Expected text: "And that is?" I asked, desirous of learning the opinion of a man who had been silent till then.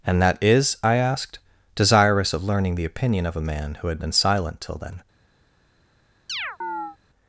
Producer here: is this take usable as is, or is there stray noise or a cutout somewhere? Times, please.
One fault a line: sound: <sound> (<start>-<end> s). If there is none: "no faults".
sound: chirp (6.3-7.0 s)